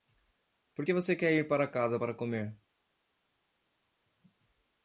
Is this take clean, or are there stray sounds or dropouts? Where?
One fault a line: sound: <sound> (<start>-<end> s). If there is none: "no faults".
no faults